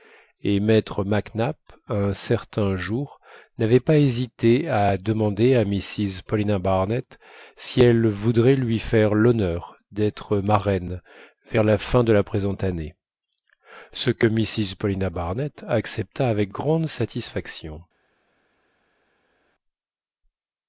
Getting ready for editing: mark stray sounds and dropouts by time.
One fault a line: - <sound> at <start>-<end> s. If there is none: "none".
none